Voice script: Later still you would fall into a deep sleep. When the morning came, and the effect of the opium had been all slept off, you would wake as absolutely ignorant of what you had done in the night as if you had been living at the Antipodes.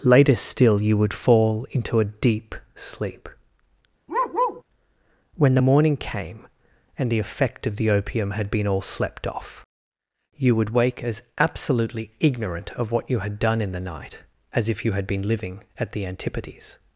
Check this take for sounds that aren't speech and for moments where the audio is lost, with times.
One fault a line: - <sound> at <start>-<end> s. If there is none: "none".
- bark at 4.1-4.6 s